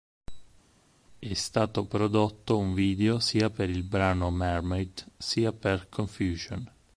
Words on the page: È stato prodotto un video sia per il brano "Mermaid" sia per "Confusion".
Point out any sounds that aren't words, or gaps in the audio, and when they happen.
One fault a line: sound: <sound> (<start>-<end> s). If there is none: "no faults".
no faults